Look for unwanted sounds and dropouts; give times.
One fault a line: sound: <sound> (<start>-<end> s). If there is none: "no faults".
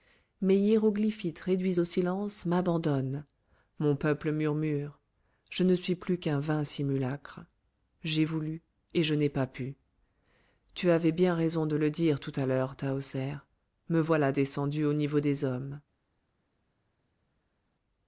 no faults